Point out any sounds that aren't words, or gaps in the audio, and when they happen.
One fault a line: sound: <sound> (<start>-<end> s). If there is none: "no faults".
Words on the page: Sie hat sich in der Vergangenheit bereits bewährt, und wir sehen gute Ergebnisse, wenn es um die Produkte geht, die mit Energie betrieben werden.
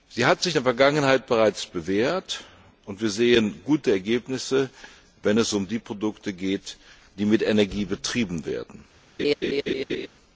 sound: laugh (9.2-10.1 s)